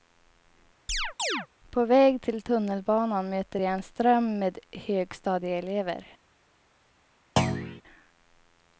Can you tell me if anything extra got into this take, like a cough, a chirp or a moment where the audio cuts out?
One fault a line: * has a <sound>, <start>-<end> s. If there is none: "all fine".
* has a chirp, 0.9-1.5 s
* has a thud, 7.4-7.8 s